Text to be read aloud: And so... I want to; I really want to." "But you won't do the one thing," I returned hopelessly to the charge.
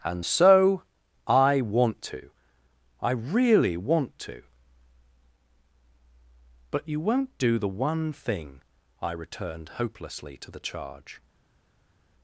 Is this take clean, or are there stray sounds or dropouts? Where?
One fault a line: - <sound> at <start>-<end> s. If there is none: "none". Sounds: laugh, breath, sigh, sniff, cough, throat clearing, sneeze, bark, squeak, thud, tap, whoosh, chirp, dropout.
none